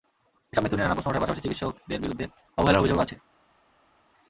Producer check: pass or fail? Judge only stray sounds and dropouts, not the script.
pass